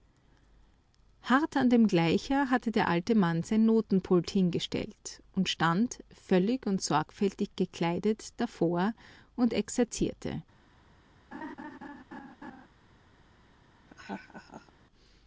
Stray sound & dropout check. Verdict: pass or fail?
fail